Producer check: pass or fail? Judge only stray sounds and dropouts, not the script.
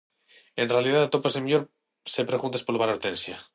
pass